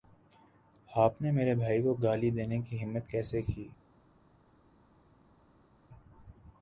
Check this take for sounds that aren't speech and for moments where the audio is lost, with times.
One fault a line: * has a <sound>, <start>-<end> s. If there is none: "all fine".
all fine